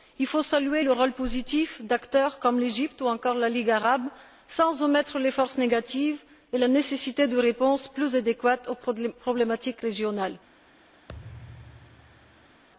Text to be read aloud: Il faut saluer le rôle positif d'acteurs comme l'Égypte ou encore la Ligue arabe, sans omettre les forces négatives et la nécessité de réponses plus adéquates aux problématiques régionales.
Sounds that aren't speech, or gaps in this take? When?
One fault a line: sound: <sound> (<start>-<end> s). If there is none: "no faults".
sound: thud (11.1-12.6 s)